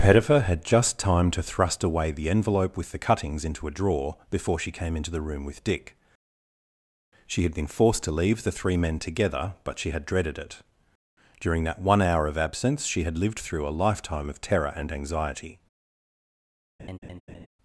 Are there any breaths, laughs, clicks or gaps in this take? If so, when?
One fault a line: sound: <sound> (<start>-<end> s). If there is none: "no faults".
sound: laugh (16.8-17.5 s)